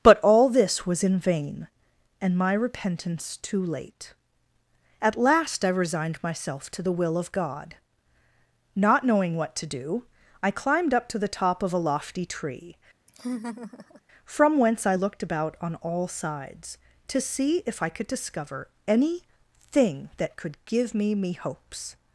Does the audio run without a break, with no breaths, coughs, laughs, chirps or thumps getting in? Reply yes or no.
no